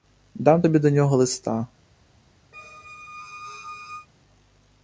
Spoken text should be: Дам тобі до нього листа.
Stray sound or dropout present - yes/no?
yes